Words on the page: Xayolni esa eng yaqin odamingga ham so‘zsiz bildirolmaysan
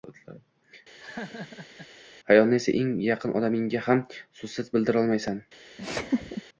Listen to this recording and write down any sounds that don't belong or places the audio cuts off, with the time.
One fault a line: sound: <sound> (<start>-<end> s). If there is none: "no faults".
sound: laugh (1.0-1.9 s)
sound: laugh (5.8-6.4 s)